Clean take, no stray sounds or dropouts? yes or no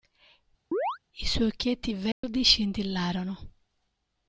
no